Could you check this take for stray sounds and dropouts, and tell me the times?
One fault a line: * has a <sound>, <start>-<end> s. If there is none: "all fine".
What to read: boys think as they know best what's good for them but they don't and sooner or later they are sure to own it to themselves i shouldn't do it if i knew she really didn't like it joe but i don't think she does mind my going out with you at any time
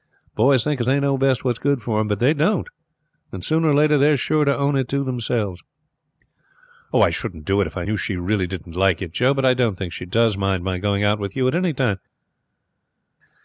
all fine